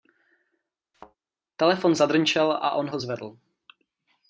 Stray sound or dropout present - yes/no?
yes